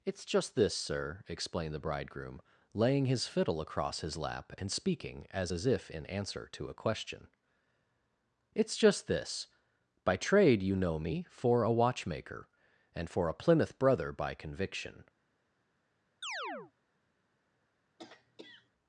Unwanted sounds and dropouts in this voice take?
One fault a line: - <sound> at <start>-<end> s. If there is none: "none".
- chirp at 16.2-16.7 s
- throat clearing at 18.0-18.7 s